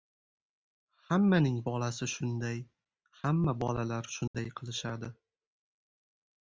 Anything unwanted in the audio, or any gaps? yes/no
yes